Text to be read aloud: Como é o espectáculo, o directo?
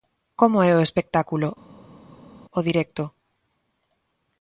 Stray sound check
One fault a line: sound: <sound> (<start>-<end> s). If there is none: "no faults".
no faults